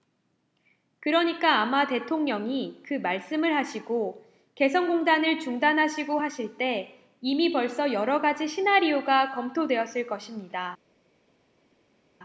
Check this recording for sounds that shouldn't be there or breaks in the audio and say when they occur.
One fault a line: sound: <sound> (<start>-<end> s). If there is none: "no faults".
no faults